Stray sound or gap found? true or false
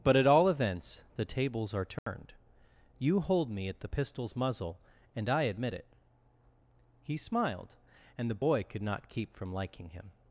true